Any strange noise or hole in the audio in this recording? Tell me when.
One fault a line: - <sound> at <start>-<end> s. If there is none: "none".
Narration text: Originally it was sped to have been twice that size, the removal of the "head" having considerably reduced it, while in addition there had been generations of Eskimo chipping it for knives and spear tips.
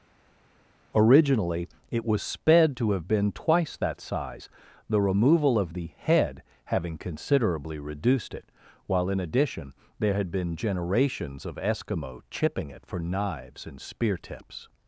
none